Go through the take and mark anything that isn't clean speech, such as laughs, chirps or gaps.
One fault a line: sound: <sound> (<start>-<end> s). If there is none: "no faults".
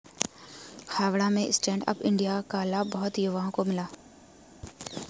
no faults